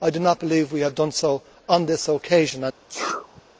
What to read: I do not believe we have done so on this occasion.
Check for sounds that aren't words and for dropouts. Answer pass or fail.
fail